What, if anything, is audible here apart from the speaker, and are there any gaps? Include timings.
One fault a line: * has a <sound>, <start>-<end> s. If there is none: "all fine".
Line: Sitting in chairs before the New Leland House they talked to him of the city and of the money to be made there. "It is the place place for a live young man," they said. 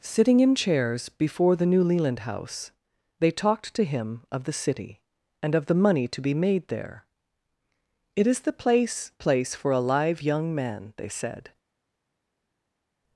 all fine